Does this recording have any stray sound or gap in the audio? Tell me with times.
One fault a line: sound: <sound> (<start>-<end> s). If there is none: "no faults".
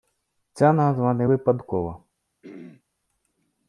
sound: throat clearing (2.4-2.8 s)